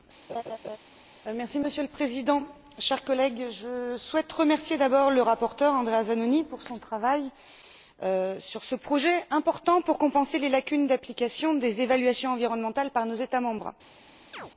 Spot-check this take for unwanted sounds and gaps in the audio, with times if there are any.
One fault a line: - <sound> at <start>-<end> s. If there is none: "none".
- laugh at 0.3-0.8 s
- chirp at 14.3-14.5 s